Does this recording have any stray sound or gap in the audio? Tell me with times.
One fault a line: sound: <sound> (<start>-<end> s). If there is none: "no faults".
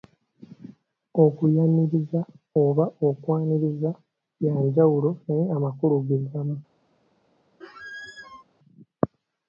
sound: squeak (7.6-8.4 s)